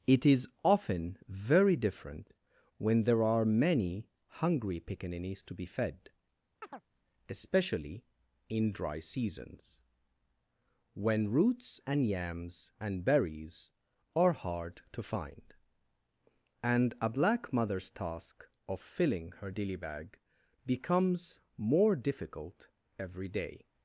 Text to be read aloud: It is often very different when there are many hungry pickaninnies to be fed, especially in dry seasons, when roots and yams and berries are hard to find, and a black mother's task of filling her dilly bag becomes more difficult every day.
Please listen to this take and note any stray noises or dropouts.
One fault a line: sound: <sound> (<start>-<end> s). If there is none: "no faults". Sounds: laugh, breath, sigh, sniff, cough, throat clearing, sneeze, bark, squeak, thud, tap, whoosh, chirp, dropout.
sound: chirp (6.6-6.8 s)